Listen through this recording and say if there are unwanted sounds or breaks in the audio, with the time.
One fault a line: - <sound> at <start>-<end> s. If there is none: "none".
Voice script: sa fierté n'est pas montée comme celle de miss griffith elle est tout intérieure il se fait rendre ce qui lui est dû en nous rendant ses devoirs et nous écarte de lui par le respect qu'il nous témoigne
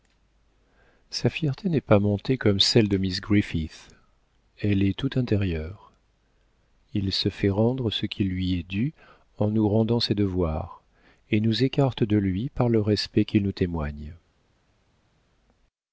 none